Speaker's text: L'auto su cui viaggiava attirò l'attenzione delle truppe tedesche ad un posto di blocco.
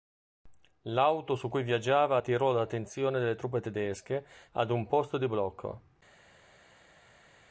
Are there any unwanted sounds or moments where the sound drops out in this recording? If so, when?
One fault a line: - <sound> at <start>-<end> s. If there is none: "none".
none